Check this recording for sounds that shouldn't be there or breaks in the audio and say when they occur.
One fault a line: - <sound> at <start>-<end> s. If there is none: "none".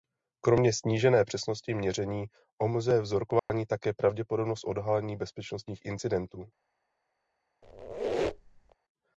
- dropout at 3.4-3.5 s
- squeak at 7.6-8.8 s